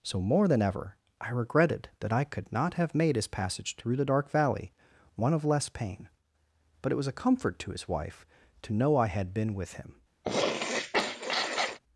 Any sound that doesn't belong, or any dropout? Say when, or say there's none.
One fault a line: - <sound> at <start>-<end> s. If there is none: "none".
- sniff at 10.2-11.8 s